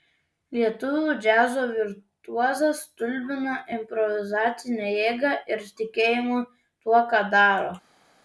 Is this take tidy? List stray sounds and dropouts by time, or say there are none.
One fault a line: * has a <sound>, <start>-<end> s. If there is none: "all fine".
all fine